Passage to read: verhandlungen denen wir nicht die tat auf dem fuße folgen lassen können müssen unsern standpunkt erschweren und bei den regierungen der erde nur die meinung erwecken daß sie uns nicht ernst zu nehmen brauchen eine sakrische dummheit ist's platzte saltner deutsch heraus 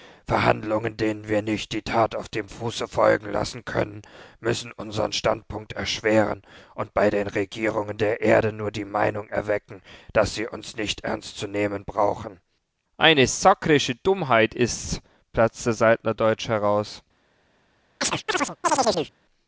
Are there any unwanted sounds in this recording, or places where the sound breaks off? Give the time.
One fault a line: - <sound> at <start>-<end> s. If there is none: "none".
- chirp at 18.0-19.1 s